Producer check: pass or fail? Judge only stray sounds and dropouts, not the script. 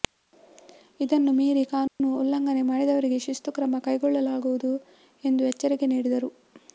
fail